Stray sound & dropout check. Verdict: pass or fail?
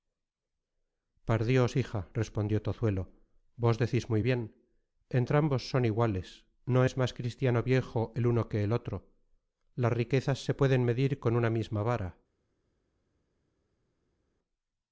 pass